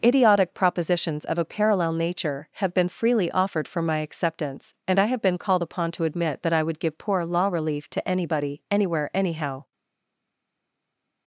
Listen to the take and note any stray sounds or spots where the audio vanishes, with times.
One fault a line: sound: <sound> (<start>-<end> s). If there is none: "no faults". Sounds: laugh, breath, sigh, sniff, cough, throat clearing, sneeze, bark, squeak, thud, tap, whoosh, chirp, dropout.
no faults